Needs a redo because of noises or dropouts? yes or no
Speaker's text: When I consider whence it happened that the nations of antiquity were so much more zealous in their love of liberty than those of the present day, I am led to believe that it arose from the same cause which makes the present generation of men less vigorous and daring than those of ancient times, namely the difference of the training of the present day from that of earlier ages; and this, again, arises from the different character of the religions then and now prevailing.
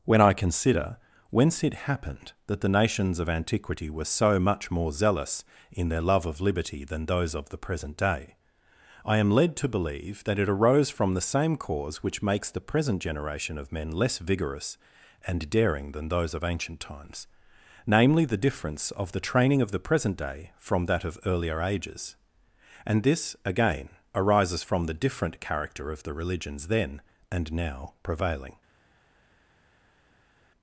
no